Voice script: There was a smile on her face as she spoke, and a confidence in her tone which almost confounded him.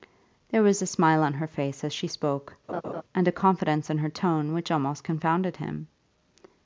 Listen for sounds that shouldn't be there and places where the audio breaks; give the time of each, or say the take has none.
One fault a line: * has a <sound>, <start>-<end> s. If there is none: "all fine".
* has a laugh, 2.7-3.0 s